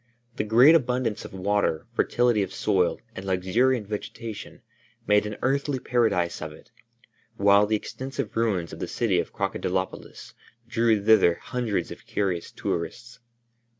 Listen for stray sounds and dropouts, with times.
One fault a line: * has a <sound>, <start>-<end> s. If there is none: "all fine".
all fine